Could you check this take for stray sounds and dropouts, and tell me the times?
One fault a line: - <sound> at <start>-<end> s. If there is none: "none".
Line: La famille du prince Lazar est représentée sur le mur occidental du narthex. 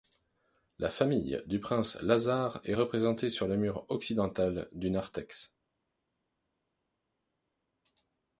none